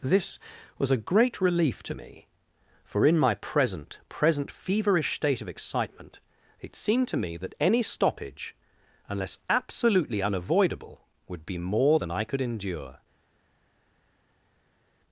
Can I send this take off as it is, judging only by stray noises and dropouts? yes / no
yes